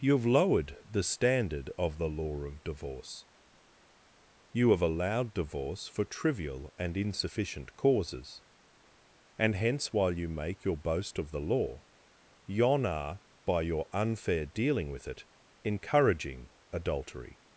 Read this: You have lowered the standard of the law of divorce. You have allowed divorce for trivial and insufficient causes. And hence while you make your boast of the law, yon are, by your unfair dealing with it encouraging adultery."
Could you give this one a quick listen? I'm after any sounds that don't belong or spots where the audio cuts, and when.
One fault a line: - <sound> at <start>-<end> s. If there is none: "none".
none